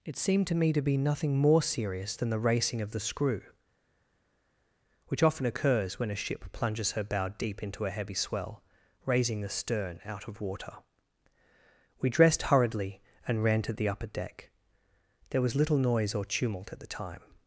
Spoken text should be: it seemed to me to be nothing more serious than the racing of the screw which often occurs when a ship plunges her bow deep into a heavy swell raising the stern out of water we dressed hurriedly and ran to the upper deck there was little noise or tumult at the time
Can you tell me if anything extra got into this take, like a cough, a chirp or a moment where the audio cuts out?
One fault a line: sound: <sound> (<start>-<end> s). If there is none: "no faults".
no faults